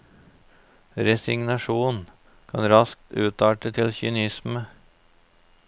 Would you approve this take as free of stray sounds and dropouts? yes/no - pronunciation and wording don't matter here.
yes